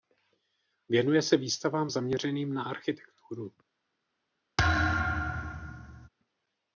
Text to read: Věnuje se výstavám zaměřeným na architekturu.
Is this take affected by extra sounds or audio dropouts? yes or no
yes